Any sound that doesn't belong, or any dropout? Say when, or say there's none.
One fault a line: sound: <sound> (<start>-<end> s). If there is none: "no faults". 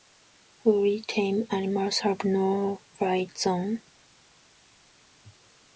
no faults